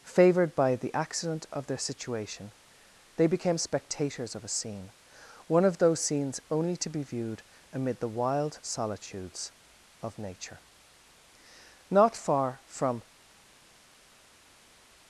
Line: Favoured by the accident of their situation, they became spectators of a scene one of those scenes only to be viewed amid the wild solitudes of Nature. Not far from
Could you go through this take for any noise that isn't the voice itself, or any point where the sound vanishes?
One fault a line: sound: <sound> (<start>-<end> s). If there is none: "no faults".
no faults